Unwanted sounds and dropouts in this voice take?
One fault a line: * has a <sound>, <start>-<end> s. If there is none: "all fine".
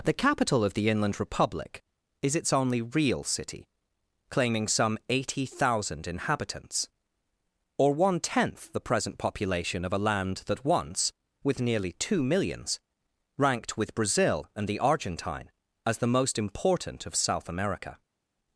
all fine